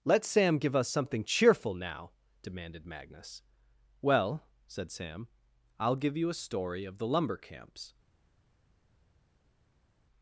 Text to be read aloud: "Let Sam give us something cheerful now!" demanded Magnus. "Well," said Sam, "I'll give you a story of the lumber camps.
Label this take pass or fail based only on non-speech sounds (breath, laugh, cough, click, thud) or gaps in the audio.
pass